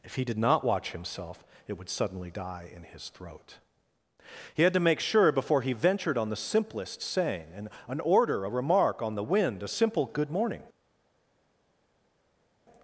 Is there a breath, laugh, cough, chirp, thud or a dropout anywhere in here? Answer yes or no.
no